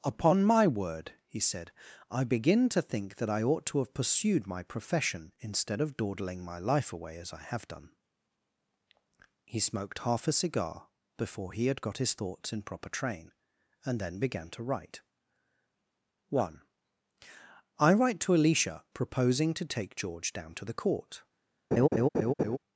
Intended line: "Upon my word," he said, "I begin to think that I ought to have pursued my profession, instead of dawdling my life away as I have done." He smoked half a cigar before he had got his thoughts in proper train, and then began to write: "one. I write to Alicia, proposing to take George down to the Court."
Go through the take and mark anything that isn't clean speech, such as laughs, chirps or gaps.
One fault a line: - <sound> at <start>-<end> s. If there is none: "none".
- laugh at 21.7-22.6 s